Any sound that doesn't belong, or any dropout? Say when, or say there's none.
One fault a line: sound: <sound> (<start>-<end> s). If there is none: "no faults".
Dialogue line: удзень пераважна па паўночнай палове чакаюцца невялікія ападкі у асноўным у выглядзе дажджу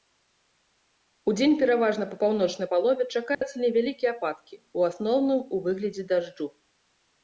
sound: dropout (3.3-3.4 s)